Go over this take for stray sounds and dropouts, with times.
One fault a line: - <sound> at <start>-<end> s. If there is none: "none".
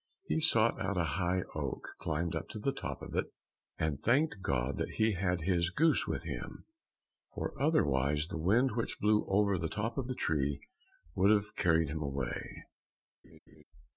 - laugh at 13.2-13.6 s